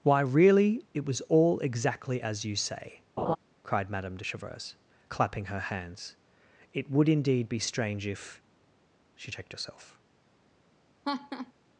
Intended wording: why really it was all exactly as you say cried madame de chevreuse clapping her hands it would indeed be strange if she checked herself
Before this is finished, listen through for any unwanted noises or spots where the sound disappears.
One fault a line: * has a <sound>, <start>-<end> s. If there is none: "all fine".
* has a laugh, 3.2-3.4 s
* has a laugh, 11.0-11.5 s